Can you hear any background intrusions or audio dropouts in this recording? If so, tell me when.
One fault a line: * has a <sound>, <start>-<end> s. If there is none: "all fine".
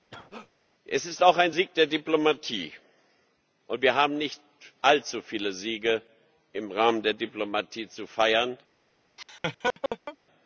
* has a cough, 0.1-0.5 s
* has a laugh, 9.2-10.2 s